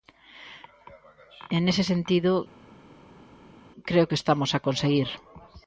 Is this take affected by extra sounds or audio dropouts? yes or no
no